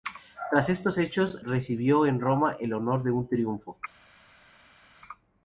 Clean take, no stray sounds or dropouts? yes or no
yes